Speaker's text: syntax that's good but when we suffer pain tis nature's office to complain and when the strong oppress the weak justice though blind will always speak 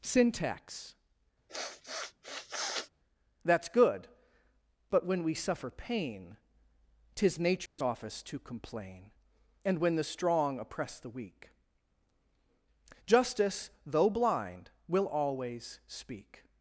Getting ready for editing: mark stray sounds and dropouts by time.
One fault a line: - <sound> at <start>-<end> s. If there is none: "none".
- sniff at 1.5-2.9 s
- dropout at 7.7-7.8 s